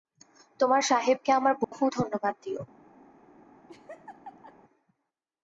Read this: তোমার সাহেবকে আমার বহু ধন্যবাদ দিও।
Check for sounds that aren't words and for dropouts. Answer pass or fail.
fail